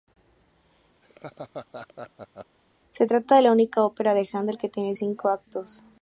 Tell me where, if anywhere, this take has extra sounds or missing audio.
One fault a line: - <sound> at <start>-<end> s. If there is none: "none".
- laugh at 1.0-2.6 s